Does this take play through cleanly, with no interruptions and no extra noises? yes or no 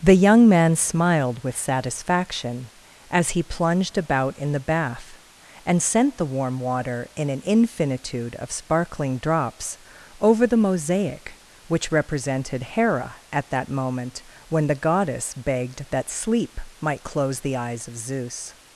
yes